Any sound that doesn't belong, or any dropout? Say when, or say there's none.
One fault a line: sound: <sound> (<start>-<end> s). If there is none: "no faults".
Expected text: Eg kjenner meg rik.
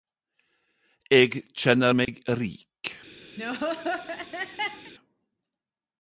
sound: dropout (2.0-2.1 s)
sound: laugh (3.4-4.9 s)